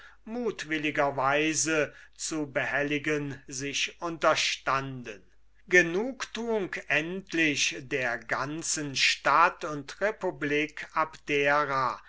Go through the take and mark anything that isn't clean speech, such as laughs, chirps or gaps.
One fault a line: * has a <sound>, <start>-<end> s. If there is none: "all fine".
all fine